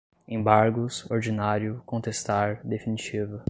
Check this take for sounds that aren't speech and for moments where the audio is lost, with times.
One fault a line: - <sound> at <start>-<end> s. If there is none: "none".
none